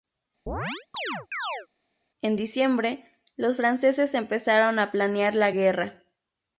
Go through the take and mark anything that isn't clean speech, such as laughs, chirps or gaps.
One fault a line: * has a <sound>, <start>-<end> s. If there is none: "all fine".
* has a chirp, 0.5-1.7 s